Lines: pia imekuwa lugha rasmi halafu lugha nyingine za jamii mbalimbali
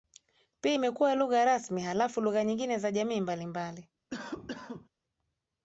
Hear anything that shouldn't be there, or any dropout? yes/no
yes